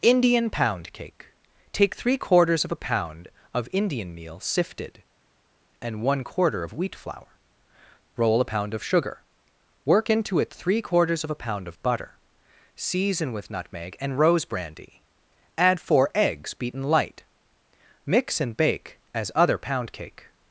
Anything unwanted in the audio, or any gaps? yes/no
no